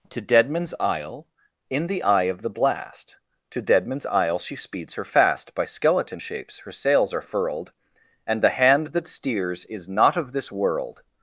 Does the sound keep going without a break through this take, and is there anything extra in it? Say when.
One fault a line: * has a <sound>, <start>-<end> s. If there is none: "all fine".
all fine